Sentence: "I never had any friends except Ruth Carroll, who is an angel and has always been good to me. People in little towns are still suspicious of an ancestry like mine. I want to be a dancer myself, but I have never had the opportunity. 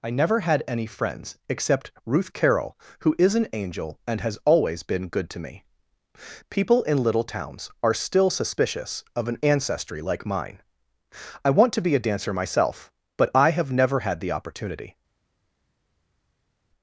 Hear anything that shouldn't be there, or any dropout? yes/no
no